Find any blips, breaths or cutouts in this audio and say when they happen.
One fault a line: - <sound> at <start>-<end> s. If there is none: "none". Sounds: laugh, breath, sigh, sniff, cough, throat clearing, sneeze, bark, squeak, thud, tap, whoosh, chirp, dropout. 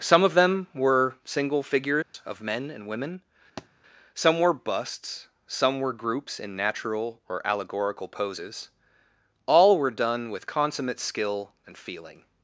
- dropout at 2.0-2.1 s
- thud at 3.6-3.7 s